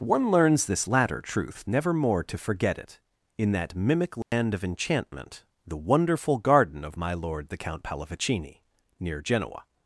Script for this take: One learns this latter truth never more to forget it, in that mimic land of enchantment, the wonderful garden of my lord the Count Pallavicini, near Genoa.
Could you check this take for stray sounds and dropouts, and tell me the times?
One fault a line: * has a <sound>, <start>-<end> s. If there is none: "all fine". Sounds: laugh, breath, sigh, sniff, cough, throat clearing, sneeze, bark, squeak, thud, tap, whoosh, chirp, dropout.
* has a dropout, 4.2-4.3 s